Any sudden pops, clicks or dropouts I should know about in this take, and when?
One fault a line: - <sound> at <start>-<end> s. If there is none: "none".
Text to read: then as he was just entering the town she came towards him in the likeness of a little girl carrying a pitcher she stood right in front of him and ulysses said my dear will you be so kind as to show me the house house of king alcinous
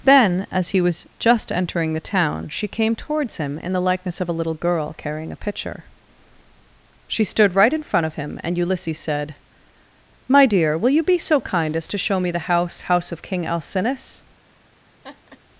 - laugh at 15.0-15.4 s